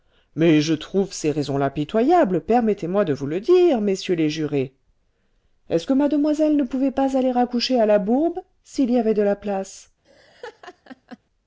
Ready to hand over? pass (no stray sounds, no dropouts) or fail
fail